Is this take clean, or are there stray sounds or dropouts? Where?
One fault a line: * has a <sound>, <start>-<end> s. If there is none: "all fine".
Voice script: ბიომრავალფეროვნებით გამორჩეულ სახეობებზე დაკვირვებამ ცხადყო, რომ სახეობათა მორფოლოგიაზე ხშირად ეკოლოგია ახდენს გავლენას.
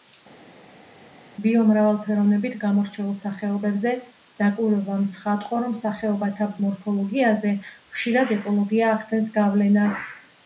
all fine